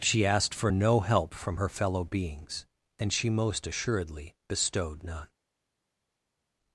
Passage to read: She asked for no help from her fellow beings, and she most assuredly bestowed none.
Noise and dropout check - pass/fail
pass